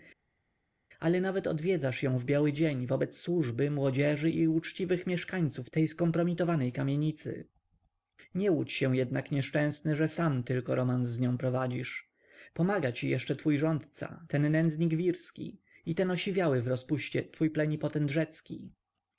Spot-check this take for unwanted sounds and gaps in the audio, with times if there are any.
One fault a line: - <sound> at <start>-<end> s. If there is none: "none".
none